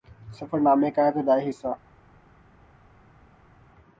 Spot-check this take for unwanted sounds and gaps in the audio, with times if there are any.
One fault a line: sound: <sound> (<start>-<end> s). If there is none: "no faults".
no faults